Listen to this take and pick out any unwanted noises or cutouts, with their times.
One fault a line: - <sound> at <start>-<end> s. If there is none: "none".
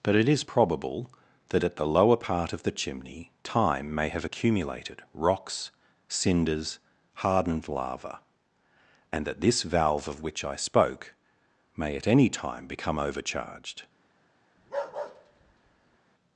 - bark at 14.6-16.0 s